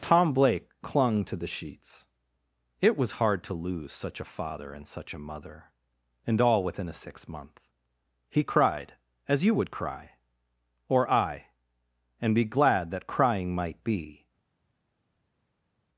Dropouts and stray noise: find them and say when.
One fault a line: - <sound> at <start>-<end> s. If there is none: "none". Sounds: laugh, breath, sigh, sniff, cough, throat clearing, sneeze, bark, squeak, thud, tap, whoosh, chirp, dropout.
none